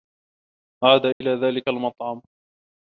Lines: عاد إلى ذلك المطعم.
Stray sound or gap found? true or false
true